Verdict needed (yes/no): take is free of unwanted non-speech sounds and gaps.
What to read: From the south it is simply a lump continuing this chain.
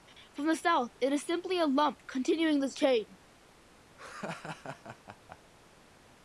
no